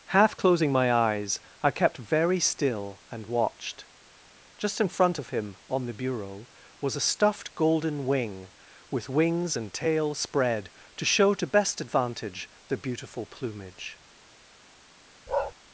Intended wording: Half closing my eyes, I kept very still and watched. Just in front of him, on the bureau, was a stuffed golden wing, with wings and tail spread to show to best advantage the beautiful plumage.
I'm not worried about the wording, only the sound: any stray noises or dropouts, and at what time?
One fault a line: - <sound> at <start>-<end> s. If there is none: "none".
- bark at 15.3-15.5 s